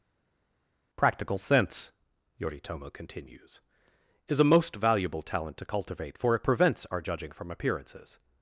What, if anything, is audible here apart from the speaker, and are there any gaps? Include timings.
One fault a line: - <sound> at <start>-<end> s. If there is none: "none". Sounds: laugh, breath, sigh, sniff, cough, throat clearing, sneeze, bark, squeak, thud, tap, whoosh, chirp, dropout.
none